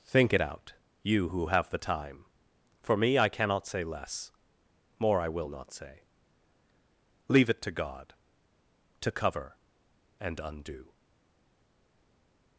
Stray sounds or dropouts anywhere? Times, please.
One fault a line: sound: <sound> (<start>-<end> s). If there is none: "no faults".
no faults